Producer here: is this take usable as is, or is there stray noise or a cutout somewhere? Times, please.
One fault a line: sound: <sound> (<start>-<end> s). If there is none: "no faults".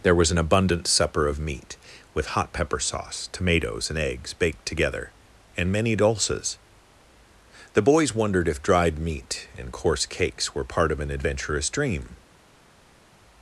no faults